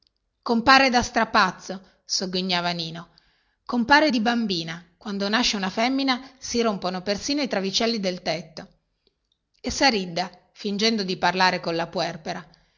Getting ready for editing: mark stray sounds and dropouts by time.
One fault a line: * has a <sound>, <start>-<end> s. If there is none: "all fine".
all fine